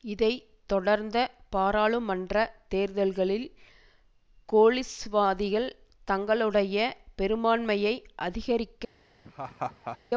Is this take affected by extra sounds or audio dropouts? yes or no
yes